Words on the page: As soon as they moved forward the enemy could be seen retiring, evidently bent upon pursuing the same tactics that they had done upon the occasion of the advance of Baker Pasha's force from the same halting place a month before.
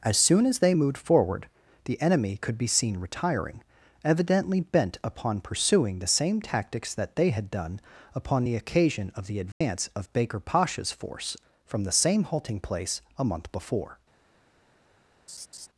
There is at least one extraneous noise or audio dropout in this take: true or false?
true